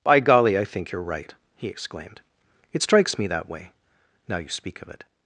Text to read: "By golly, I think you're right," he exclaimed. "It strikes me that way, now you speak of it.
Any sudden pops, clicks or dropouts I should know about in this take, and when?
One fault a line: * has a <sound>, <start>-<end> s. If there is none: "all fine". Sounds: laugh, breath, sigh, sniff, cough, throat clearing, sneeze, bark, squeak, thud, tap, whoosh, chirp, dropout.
all fine